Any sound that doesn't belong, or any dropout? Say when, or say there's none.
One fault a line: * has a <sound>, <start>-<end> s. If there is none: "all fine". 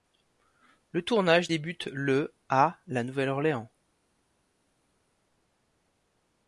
all fine